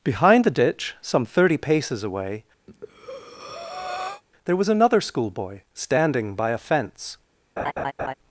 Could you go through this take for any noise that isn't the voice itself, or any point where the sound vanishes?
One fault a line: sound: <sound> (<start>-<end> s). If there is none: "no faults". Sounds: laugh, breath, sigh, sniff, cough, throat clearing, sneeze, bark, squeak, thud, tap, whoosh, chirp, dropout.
sound: breath (2.7-4.2 s)
sound: laugh (7.6-8.1 s)